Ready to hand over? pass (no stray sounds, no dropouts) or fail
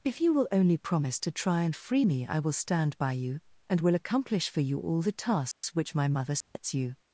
fail